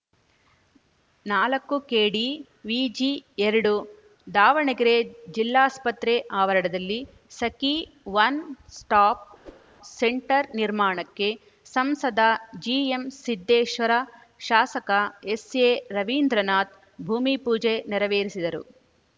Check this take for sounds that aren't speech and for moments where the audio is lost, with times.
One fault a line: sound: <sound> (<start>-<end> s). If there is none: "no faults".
sound: whoosh (9.4-9.7 s)